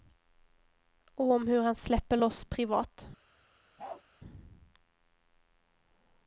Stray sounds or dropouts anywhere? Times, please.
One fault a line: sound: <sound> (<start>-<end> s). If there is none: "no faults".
sound: bark (3.8-4.0 s)